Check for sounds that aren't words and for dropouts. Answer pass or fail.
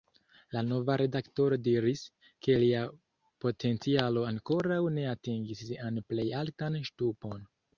pass